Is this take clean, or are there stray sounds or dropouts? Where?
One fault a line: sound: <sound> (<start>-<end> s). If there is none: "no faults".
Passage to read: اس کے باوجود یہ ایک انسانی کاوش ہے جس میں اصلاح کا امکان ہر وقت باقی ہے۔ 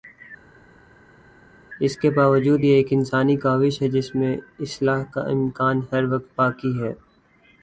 no faults